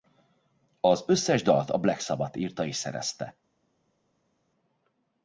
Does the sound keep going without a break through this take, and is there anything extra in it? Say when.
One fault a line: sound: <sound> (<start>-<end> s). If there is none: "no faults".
no faults